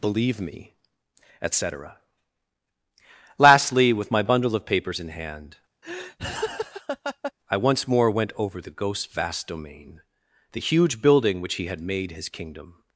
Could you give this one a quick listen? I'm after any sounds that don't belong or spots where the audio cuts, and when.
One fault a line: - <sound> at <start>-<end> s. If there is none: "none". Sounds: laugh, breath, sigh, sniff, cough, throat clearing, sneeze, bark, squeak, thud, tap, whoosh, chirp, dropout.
- laugh at 5.8-7.3 s